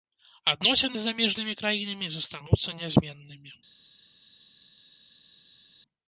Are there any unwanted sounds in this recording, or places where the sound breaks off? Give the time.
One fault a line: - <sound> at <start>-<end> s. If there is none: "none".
none